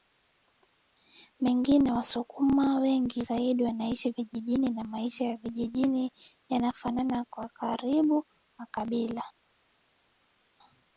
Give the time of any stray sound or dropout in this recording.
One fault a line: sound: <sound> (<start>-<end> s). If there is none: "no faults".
no faults